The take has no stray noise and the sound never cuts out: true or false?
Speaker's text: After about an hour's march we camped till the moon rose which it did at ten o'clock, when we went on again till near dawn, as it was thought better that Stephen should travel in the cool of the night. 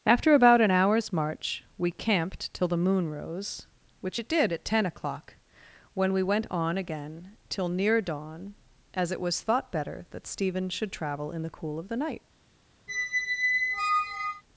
false